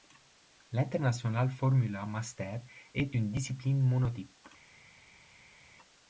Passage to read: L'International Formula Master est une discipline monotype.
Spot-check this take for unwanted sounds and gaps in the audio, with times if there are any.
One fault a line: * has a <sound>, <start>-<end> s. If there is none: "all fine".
all fine